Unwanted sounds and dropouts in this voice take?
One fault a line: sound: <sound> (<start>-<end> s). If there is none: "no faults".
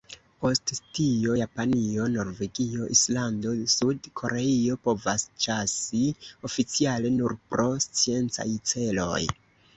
no faults